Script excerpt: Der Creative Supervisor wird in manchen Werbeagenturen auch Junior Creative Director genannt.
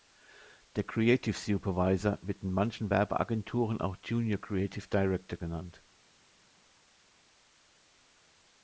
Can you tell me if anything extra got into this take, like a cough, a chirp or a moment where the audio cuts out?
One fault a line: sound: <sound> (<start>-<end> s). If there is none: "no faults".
no faults